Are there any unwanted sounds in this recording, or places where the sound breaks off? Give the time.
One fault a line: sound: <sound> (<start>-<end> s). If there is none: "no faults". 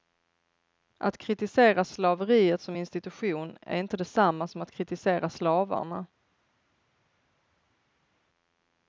no faults